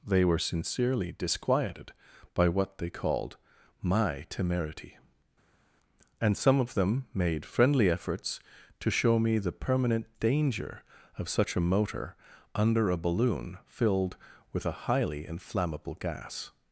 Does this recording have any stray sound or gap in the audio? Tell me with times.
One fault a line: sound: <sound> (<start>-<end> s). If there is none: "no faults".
no faults